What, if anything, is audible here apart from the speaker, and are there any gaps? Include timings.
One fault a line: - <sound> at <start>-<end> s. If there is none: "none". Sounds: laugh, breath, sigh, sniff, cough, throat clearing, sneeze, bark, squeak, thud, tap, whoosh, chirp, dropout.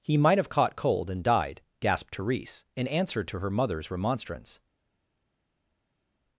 none